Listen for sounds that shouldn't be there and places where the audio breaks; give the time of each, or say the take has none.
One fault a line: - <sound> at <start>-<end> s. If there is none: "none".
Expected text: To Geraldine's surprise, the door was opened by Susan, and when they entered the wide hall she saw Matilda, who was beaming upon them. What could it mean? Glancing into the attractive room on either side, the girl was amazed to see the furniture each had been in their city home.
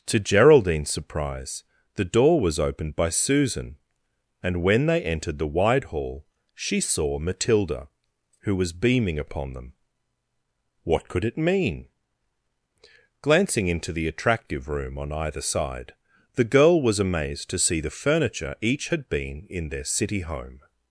none